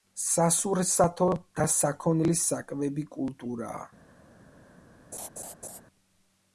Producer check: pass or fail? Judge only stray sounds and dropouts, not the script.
fail